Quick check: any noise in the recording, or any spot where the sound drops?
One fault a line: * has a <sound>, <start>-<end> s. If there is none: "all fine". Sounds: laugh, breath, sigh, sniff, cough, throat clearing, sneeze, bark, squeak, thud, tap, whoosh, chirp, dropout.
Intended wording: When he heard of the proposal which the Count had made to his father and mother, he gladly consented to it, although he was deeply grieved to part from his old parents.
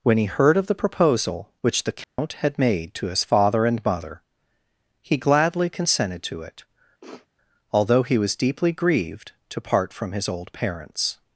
* has a dropout, 2.0-2.2 s
* has a sniff, 7.0-7.3 s